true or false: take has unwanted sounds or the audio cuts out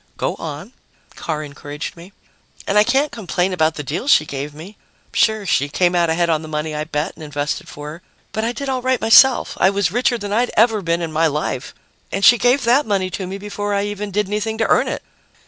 false